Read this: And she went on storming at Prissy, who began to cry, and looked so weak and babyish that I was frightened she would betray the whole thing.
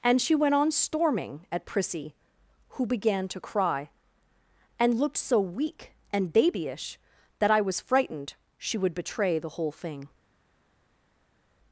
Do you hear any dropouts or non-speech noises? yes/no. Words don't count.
no